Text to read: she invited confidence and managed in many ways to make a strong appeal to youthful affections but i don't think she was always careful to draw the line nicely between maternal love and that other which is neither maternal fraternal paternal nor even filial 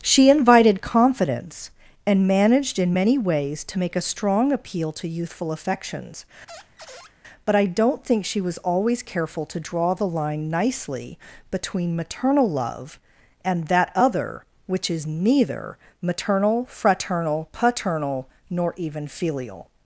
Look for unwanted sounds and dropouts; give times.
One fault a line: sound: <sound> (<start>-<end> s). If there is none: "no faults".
sound: squeak (6.5-7.1 s)